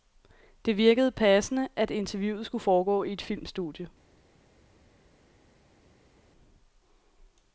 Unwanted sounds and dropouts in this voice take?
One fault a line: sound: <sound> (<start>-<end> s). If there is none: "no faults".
no faults